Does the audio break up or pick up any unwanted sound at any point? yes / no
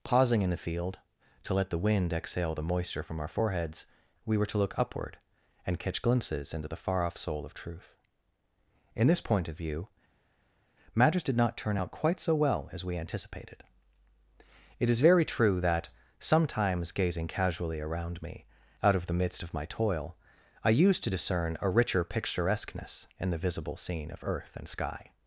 no